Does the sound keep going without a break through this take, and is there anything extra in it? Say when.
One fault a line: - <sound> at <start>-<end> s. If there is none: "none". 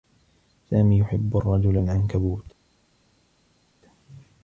none